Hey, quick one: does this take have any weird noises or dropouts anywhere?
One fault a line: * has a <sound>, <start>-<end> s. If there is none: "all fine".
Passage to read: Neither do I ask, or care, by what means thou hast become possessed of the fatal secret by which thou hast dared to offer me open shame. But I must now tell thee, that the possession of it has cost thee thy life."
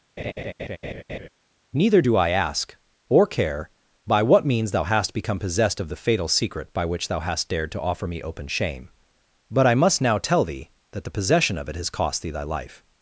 * has a laugh, 0.2-1.3 s